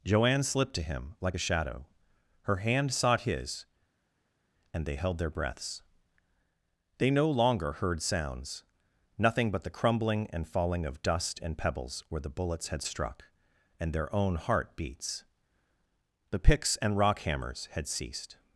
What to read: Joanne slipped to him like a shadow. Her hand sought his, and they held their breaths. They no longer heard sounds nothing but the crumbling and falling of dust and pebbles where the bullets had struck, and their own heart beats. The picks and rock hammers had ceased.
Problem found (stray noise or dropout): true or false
false